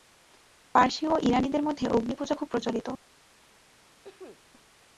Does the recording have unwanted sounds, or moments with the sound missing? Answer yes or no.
yes